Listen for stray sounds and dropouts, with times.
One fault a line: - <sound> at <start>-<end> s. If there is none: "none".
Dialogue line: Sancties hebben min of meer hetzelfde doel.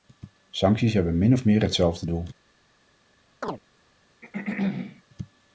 - chirp at 3.4-3.6 s
- throat clearing at 4.2-5.0 s